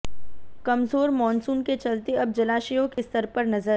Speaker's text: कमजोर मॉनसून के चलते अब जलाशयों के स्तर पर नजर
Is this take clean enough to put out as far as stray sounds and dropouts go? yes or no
no